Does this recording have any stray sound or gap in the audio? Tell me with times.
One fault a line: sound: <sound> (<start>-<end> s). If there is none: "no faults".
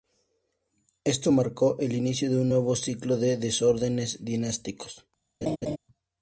sound: laugh (5.4-5.8 s)